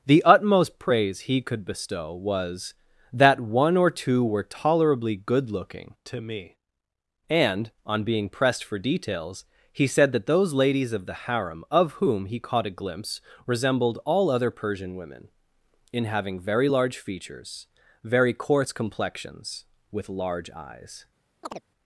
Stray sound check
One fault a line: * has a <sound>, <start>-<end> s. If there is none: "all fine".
* has a chirp, 21.4-21.6 s